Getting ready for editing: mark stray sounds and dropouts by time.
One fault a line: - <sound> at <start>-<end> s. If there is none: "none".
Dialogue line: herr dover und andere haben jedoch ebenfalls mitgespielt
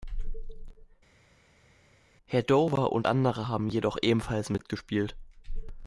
none